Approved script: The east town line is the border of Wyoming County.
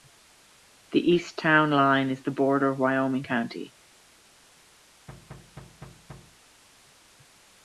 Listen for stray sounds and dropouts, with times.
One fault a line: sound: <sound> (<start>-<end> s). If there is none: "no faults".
sound: thud (5.1-6.4 s)